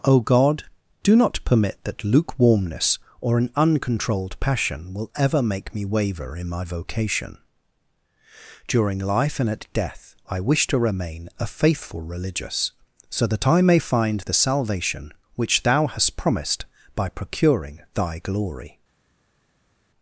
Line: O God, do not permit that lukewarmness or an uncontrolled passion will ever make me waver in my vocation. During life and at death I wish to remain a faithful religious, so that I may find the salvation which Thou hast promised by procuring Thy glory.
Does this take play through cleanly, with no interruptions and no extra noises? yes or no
yes